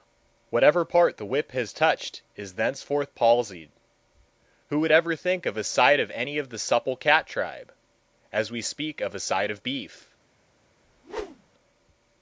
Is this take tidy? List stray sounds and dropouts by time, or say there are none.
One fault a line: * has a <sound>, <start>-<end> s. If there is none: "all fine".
* has a whoosh, 10.8-11.5 s